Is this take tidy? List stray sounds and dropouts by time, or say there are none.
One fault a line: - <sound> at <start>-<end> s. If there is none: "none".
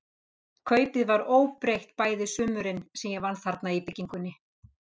none